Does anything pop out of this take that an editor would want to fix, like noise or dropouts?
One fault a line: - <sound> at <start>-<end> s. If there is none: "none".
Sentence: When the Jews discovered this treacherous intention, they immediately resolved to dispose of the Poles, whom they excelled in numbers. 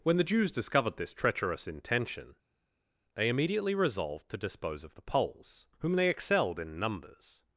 none